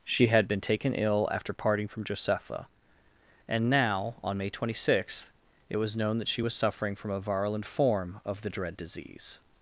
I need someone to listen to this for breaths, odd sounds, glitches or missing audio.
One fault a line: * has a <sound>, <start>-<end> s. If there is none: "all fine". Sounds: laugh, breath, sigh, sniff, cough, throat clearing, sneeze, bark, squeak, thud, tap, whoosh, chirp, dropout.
all fine